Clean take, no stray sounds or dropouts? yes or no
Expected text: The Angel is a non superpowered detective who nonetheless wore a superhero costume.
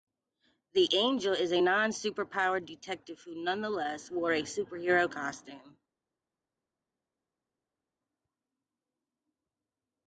yes